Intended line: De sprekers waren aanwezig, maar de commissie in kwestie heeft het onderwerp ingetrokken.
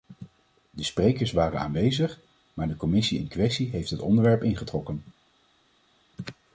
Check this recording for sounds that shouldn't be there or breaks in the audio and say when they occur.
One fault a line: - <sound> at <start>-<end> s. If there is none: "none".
none